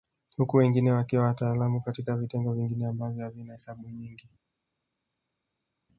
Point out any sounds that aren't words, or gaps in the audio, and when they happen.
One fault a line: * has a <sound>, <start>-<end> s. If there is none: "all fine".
all fine